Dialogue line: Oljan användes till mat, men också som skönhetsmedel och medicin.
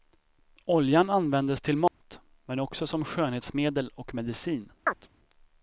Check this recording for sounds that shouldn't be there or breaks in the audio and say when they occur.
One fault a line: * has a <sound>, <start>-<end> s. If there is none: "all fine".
* has a dropout, 1.9-2.0 s
* has a chirp, 4.9-5.1 s